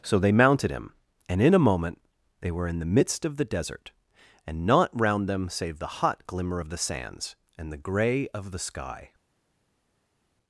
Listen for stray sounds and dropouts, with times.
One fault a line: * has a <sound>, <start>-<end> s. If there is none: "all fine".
all fine